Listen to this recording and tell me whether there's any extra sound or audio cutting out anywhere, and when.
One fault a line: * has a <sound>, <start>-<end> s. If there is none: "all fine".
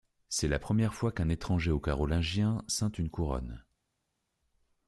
all fine